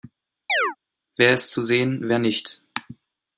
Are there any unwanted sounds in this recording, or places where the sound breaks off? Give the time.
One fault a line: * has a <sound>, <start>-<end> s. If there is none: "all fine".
* has a chirp, 0.5-0.8 s